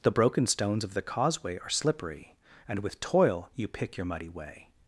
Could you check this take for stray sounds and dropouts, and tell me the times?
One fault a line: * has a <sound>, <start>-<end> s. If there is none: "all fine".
all fine